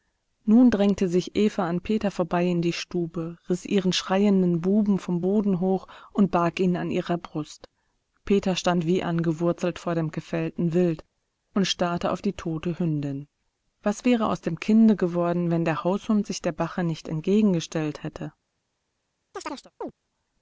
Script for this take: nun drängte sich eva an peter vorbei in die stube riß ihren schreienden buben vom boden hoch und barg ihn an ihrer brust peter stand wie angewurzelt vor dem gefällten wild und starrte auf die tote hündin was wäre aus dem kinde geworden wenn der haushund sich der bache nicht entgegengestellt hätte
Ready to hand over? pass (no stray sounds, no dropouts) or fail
fail